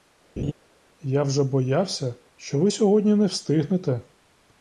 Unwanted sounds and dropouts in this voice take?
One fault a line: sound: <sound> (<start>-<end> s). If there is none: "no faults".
sound: laugh (0.4-0.5 s)